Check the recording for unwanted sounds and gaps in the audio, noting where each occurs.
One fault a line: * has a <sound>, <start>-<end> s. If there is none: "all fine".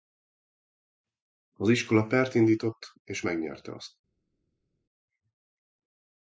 all fine